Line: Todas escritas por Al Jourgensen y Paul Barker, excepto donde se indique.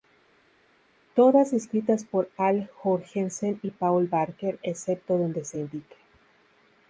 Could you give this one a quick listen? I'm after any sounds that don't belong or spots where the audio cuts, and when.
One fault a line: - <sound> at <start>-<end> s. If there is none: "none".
none